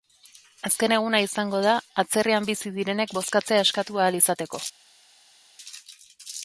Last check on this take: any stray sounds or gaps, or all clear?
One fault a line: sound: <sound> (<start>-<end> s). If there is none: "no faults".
no faults